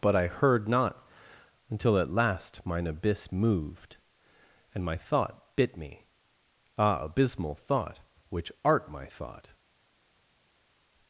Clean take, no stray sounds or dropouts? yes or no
yes